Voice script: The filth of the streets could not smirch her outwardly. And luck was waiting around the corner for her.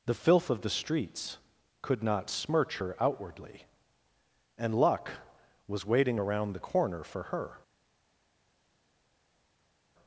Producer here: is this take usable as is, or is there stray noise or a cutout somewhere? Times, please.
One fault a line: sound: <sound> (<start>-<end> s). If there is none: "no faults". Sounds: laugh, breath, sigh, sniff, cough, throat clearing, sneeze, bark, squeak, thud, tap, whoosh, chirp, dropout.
no faults